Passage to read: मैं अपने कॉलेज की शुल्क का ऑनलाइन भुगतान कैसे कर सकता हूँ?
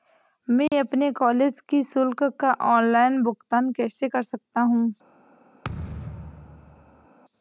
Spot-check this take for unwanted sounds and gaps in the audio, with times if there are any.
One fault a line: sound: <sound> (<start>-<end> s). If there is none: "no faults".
sound: dropout (0.7-0.7 s)
sound: thud (5.6-7.1 s)